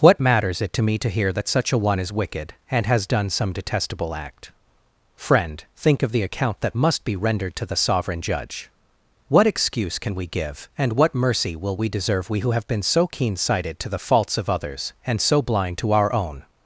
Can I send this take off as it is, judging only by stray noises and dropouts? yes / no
yes